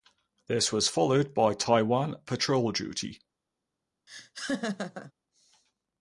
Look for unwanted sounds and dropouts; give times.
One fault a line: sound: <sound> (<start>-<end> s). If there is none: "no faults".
sound: laugh (4.1-5.1 s)